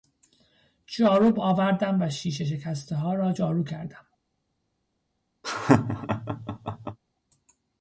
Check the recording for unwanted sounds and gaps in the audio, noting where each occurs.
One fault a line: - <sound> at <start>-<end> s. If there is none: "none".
- laugh at 5.4-7.0 s